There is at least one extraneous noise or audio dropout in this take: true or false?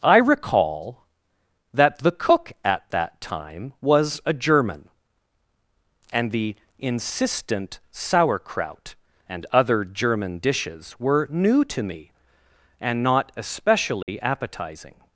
true